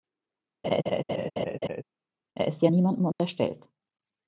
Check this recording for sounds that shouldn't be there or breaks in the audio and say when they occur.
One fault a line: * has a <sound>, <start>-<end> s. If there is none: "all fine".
* has a laugh, 0.6-1.8 s
* has a dropout, 3.1-3.2 s